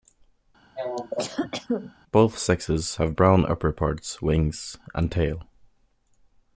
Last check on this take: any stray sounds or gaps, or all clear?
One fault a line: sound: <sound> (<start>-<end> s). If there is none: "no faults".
sound: cough (0.8-1.9 s)